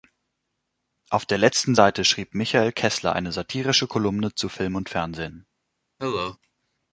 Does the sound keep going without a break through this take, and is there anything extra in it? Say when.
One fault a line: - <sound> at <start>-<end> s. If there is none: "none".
- cough at 6.0-6.4 s